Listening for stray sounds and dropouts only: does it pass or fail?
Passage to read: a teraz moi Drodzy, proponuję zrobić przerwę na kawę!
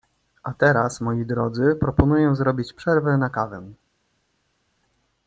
pass